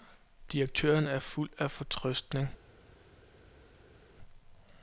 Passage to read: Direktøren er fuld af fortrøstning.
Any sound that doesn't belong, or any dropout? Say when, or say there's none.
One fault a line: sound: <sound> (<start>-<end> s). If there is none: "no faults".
no faults